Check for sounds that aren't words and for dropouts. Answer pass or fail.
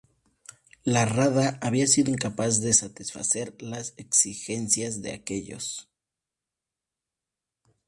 pass